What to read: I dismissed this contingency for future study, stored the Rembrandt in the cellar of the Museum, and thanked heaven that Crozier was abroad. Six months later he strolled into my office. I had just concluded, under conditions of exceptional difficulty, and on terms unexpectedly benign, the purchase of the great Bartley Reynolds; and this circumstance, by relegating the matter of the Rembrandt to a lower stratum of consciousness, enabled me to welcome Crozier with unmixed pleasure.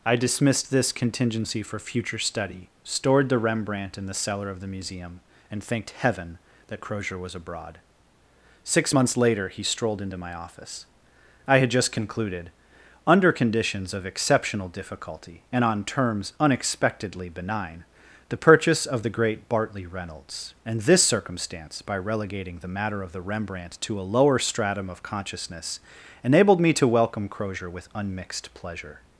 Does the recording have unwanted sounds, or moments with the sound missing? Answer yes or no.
no